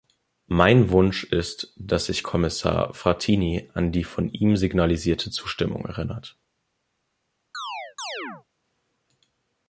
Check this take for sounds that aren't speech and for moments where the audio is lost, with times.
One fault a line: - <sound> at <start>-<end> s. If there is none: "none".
- chirp at 7.5-8.4 s